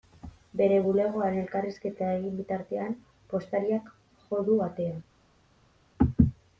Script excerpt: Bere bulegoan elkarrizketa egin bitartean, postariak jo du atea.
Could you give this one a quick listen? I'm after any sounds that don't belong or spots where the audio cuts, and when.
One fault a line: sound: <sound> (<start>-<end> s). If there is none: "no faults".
no faults